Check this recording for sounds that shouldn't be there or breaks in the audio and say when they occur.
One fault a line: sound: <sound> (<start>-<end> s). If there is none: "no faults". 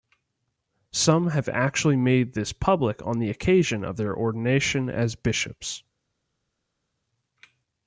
no faults